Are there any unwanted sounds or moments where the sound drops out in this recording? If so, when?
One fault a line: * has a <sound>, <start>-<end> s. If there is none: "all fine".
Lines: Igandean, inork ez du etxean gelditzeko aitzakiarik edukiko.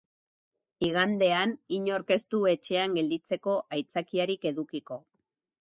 all fine